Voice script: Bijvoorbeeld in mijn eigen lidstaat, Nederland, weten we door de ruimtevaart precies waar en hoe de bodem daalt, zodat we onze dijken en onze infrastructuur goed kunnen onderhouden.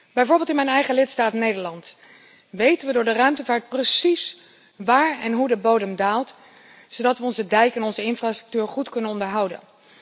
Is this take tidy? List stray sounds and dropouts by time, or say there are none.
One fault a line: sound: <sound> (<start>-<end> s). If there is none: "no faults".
no faults